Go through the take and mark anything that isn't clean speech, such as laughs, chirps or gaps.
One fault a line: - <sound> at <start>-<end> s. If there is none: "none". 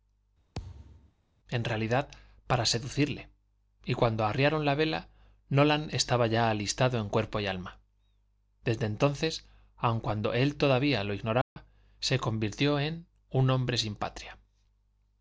- thud at 0.5-1.1 s
- dropout at 11.4-11.6 s